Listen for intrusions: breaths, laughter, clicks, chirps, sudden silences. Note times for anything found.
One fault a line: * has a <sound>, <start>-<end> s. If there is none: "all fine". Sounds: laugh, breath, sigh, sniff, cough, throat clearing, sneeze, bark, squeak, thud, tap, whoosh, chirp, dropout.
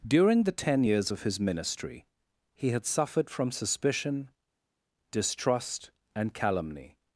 all fine